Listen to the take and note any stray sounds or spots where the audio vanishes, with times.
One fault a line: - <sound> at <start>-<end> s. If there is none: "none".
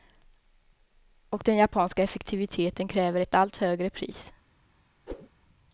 - whoosh at 5.1-5.3 s